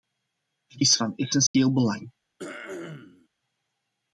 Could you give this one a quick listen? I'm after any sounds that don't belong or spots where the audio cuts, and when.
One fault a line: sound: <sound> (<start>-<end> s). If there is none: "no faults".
sound: dropout (1.5-1.5 s)
sound: throat clearing (2.4-3.3 s)